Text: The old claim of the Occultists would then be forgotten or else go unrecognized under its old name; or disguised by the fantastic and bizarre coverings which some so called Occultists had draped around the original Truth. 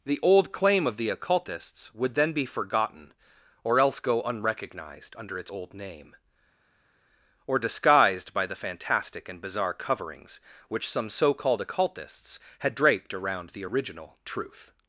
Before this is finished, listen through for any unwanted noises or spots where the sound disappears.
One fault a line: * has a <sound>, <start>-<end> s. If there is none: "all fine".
all fine